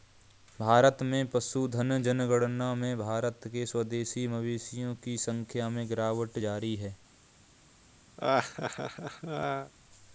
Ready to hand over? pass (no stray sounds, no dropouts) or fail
fail